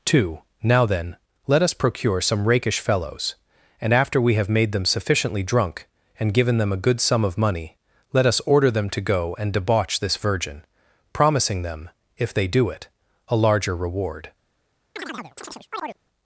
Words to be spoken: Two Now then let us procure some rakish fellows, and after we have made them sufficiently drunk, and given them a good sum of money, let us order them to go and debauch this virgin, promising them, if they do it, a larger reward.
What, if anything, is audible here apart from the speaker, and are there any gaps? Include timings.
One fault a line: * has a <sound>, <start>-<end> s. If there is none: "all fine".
* has a chirp, 15.0-16.0 s